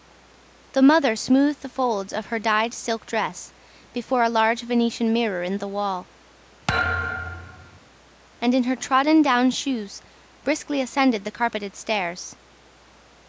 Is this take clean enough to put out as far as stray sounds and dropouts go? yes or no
no